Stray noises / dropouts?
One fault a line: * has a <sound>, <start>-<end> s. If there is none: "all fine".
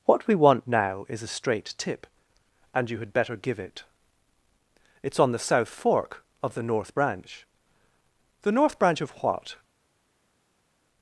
all fine